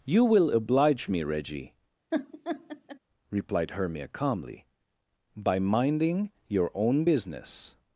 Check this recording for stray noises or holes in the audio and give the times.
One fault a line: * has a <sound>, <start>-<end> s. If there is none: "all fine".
* has a laugh, 2.1-3.0 s